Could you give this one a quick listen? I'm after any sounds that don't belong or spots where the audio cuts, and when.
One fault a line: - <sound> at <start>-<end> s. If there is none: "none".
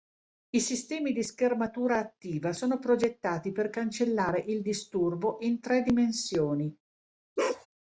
- bark at 7.4-7.7 s